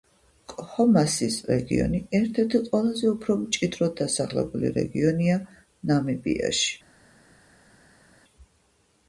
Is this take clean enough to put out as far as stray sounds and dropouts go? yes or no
yes